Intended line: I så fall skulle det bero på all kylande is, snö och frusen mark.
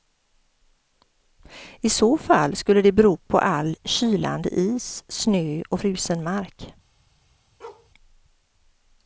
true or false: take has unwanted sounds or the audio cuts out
true